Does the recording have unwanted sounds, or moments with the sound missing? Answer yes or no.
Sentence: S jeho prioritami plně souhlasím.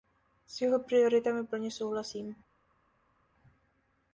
no